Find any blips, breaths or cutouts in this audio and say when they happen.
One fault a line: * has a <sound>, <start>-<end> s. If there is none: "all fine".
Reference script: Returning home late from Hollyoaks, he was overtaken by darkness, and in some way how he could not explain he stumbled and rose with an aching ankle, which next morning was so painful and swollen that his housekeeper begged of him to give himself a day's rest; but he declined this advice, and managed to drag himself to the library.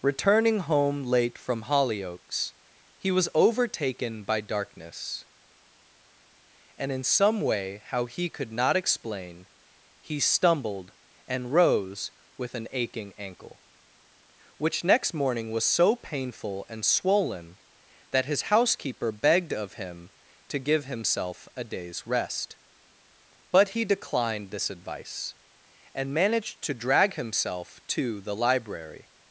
all fine